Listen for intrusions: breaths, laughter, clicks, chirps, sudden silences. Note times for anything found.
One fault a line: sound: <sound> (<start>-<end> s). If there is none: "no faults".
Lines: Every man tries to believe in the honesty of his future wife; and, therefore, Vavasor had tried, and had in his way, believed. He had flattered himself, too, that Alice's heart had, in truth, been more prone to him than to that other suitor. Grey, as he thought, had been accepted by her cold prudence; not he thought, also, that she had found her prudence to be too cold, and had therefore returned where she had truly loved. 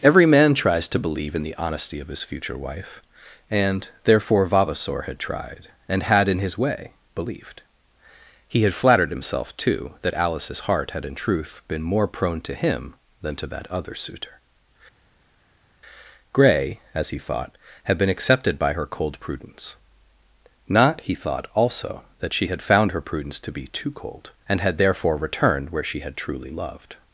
no faults